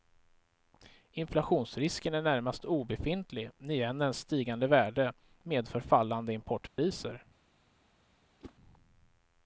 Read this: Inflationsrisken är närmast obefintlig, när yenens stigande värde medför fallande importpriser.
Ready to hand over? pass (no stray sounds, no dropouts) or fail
fail